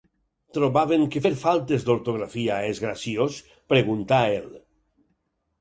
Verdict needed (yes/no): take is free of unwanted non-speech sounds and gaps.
yes